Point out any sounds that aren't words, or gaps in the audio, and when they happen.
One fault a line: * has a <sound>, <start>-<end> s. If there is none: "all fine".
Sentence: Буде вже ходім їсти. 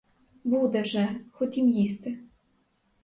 all fine